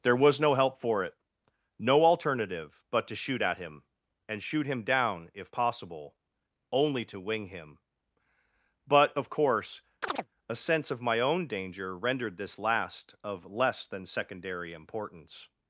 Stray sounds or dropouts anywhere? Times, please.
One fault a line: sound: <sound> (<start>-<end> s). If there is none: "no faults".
sound: chirp (10.0-10.3 s)